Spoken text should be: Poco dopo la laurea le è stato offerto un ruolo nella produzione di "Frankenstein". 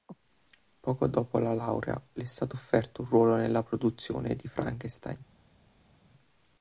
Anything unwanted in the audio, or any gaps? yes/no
no